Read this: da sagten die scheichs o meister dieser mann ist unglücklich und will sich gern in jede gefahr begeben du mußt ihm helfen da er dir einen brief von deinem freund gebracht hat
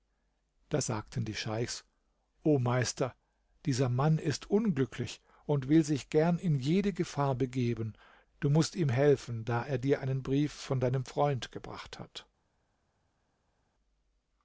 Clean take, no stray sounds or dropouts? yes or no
yes